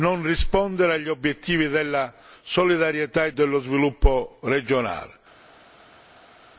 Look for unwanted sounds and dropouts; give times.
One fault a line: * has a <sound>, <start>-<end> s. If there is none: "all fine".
all fine